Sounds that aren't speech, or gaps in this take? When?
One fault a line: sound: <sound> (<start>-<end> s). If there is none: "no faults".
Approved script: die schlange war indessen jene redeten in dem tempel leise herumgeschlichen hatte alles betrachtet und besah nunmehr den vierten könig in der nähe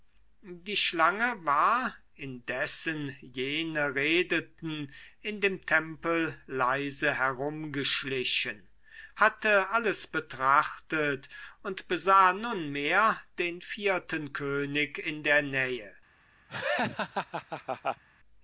sound: laugh (16.5-18.0 s)